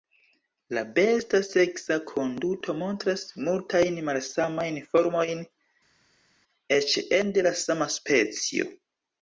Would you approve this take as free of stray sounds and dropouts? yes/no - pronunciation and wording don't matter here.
yes